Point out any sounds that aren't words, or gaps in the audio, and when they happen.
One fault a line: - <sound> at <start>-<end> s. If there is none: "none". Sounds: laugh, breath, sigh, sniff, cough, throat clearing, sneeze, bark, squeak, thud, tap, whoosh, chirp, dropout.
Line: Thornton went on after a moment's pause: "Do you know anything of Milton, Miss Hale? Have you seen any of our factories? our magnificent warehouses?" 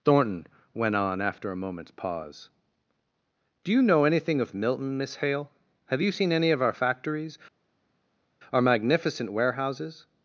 none